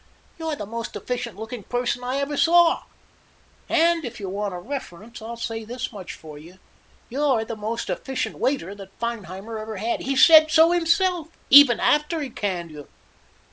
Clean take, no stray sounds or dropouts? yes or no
yes